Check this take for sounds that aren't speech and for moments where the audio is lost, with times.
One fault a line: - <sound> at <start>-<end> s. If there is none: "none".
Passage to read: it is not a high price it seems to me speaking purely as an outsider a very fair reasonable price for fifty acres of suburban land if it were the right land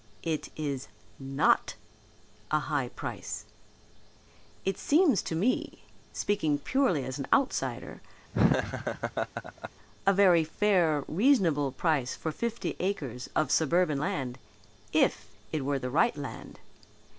- laugh at 8.3-9.7 s